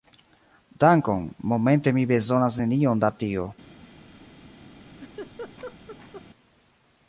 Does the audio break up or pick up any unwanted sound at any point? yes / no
yes